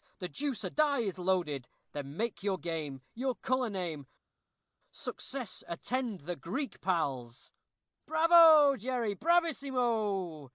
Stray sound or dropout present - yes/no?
no